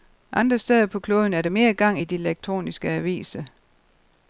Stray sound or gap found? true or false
false